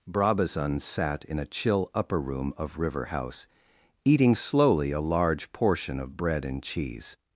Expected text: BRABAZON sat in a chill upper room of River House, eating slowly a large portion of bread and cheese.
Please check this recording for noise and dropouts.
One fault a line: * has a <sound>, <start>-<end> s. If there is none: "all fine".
all fine